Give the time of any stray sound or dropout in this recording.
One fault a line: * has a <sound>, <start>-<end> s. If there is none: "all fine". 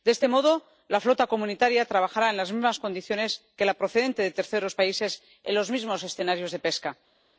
all fine